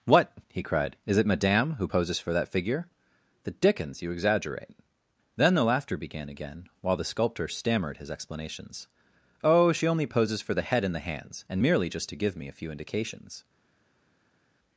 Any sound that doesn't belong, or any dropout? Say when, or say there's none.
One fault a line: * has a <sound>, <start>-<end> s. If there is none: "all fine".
all fine